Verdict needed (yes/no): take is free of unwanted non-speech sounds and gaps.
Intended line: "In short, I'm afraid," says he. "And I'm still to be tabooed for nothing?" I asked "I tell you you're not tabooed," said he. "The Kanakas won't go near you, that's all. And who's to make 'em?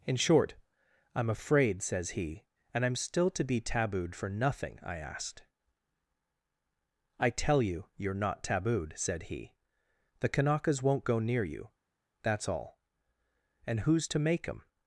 yes